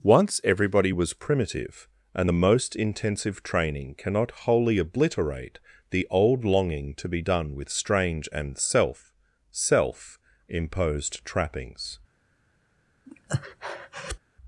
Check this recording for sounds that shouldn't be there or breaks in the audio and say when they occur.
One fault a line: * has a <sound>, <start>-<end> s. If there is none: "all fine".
* has a breath, 13.1-14.2 s